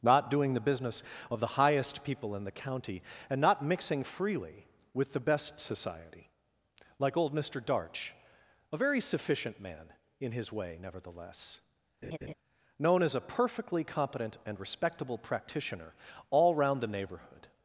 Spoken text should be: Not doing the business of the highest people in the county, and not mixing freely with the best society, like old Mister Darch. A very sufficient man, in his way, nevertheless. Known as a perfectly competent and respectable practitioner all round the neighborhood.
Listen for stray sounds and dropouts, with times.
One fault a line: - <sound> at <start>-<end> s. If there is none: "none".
- laugh at 12.0-12.3 s